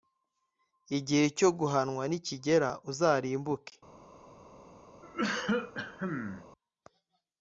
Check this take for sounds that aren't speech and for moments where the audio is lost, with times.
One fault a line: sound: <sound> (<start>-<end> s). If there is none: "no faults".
sound: cough (5.0-6.5 s)